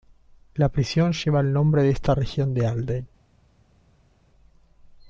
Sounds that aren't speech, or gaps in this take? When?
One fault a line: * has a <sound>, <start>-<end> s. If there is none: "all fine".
all fine